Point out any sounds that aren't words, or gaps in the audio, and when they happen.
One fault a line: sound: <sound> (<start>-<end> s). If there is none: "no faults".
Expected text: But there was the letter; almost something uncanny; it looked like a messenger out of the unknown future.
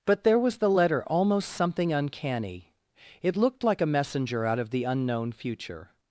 no faults